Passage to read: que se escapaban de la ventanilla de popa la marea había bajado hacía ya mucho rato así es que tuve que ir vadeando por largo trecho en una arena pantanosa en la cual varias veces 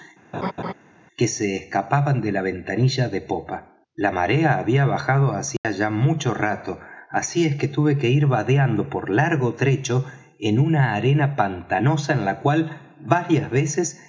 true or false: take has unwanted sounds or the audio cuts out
true